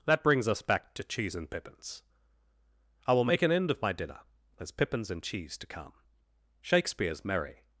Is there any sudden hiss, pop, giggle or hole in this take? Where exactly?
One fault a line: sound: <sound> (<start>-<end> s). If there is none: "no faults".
no faults